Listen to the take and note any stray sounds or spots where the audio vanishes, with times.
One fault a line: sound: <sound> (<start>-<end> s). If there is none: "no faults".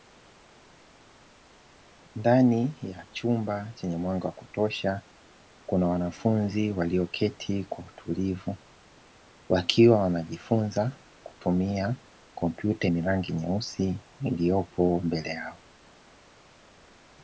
no faults